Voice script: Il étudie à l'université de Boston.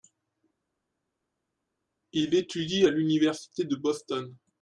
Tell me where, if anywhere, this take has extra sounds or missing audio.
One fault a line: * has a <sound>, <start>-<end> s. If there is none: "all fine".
all fine